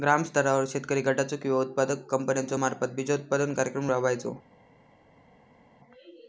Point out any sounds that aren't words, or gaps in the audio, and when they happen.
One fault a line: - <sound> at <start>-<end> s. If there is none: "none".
none